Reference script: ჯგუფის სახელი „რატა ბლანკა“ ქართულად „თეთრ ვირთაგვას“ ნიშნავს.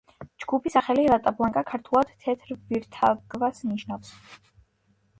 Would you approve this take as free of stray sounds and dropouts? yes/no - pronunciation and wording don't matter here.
yes